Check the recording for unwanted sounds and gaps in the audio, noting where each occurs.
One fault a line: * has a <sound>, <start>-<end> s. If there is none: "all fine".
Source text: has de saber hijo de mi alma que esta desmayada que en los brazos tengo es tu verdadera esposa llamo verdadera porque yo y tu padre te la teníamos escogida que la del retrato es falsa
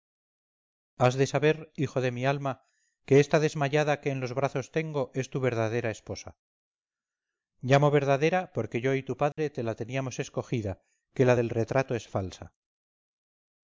* has a dropout, 9.3-9.4 s